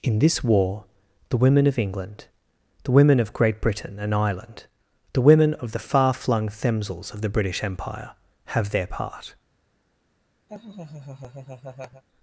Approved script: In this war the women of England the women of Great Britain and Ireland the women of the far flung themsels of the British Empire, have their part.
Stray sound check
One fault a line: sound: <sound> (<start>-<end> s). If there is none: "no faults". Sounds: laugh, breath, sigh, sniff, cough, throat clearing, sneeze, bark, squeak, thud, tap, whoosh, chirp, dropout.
sound: laugh (10.5-12.0 s)